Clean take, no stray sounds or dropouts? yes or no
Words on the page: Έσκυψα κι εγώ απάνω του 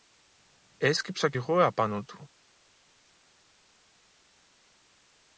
yes